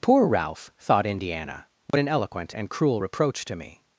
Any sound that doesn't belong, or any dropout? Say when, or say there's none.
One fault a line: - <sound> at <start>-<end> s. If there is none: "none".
- dropout at 1.9-1.9 s